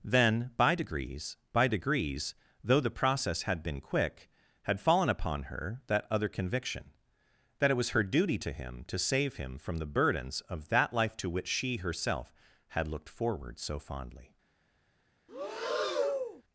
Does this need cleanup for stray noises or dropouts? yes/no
yes